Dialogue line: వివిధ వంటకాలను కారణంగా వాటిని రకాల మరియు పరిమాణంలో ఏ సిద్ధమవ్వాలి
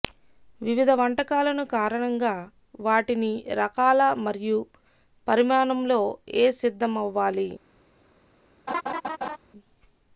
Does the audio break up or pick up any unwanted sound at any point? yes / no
yes